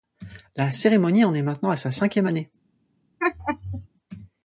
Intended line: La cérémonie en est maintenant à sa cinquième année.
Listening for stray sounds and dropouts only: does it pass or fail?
fail